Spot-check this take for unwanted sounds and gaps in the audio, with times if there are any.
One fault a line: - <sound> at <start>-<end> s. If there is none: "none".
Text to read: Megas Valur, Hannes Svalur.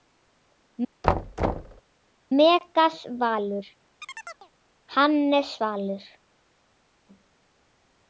- thud at 1.0-1.8 s
- chirp at 4.0-4.5 s